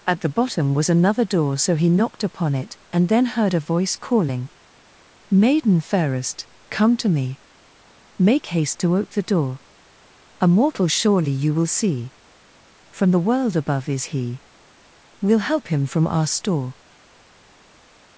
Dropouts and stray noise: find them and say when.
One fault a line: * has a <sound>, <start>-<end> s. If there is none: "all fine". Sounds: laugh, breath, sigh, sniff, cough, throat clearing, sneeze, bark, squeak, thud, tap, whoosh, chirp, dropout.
all fine